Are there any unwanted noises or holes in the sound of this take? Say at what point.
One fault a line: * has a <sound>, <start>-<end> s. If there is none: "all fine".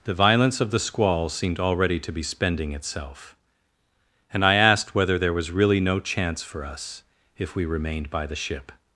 all fine